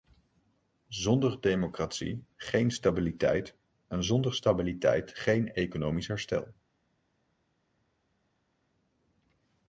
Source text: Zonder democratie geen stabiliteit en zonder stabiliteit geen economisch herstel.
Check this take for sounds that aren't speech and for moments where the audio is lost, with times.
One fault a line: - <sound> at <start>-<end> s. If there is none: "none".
none